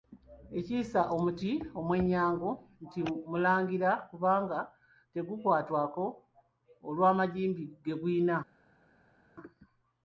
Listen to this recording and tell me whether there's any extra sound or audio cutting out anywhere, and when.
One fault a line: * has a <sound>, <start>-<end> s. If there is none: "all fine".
all fine